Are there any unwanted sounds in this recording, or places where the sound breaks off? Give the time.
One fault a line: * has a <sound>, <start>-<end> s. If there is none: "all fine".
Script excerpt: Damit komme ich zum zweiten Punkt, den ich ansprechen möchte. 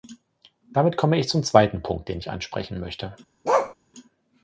* has a bark, 3.4-3.7 s